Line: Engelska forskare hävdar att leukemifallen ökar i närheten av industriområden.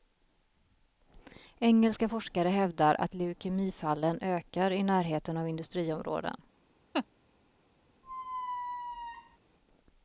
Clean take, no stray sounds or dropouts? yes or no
no